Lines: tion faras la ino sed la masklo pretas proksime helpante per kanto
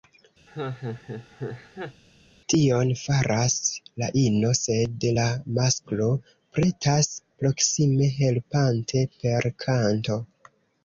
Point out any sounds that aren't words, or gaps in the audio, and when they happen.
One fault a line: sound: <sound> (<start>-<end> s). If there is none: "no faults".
sound: laugh (0.5-2.0 s)